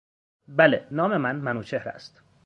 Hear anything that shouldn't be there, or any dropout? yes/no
no